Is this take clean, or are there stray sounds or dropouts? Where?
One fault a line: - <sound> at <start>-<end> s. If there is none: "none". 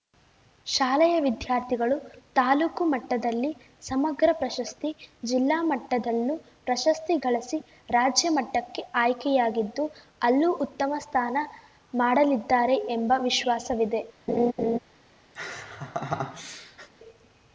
- laugh at 14.3-14.8 s
- laugh at 15.4-16.9 s